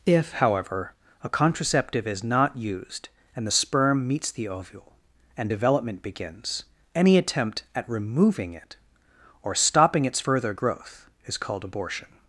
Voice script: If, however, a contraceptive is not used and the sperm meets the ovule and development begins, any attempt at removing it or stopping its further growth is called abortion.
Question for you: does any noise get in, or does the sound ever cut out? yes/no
no